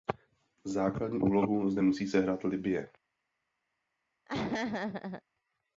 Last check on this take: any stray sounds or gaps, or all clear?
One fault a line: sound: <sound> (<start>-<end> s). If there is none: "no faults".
sound: laugh (4.3-5.2 s)